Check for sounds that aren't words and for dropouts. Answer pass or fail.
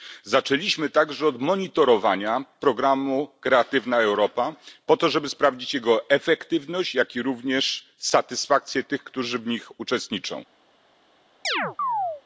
fail